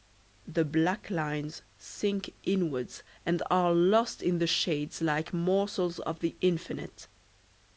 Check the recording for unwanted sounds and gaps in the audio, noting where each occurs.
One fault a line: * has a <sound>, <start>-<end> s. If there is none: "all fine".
all fine